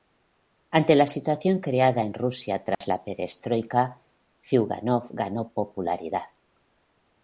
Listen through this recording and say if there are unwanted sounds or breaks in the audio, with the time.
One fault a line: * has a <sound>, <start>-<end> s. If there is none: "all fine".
* has a dropout, 2.7-2.8 s